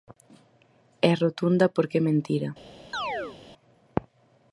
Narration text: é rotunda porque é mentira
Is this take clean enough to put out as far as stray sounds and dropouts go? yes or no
no